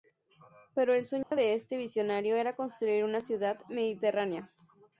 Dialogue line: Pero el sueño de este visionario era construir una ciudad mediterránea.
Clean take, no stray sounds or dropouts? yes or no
no